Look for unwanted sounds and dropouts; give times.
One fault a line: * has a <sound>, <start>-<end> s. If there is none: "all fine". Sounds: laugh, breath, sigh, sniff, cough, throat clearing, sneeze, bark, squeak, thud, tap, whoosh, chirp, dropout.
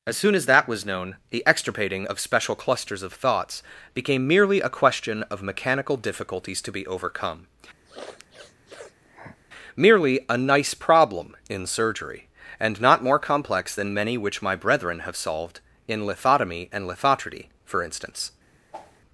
* has a sniff, 7.8-9.4 s
* has a whoosh, 18.7-19.0 s